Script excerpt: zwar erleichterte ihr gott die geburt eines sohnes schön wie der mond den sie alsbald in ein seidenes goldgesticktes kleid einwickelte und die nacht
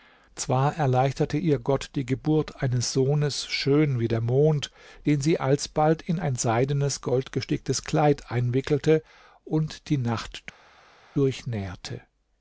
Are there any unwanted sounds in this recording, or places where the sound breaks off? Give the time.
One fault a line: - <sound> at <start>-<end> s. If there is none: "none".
none